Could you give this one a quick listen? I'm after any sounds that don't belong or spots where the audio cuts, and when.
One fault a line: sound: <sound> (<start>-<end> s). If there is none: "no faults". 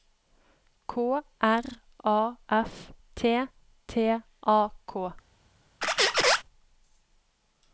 sound: squeak (5.8-6.4 s)